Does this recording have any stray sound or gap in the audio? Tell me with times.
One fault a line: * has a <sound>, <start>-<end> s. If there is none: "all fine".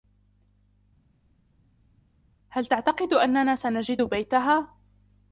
all fine